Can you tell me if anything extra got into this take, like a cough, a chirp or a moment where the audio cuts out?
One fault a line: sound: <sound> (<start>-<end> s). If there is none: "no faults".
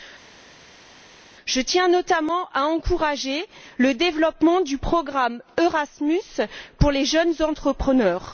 no faults